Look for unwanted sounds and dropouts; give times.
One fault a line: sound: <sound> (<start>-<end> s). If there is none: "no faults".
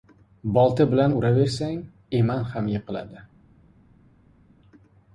no faults